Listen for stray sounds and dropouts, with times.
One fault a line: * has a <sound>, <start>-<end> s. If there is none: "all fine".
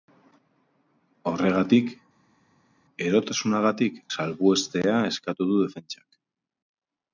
all fine